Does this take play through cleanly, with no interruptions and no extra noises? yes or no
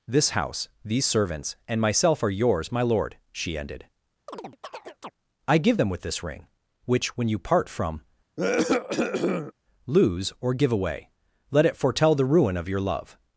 no